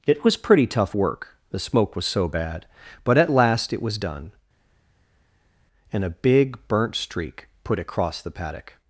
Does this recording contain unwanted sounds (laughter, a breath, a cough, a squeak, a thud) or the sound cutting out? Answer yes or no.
no